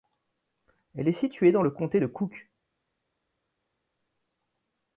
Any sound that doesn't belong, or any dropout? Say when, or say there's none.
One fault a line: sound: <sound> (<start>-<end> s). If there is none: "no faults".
no faults